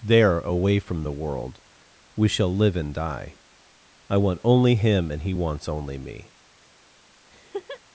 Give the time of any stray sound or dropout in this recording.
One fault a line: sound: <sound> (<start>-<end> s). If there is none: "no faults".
sound: laugh (7.3-7.8 s)